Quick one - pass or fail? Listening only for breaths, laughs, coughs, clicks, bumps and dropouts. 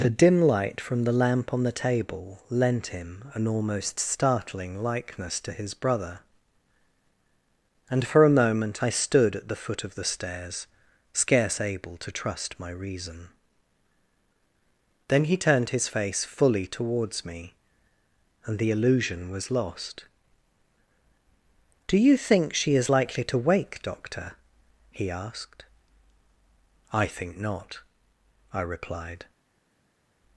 pass